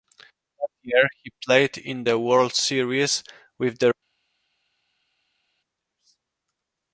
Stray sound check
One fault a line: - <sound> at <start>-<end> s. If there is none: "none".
none